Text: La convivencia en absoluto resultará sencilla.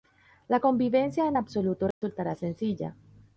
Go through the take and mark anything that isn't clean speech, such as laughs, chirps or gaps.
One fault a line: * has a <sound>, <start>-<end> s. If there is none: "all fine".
* has a dropout, 1.9-2.0 s